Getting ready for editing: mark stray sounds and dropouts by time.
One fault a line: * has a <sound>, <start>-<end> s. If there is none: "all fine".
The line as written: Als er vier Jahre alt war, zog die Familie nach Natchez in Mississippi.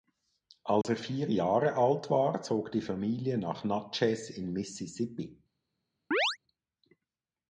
* has a dropout, 0.8-0.8 s
* has a chirp, 6.1-6.4 s